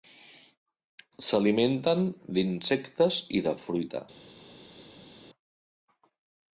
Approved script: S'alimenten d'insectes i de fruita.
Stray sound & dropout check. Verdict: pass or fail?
pass